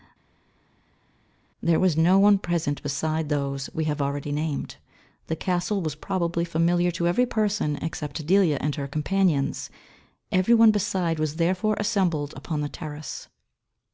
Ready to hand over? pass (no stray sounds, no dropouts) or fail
pass